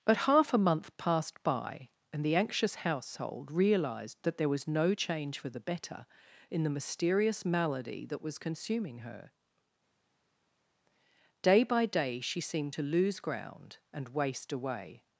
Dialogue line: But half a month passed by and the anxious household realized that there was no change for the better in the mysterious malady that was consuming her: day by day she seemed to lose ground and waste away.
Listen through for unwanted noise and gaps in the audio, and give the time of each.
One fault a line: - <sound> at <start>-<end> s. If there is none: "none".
none